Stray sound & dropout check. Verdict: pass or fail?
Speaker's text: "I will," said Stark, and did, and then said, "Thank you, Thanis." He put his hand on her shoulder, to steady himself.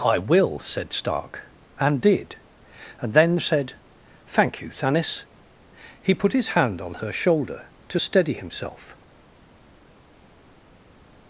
pass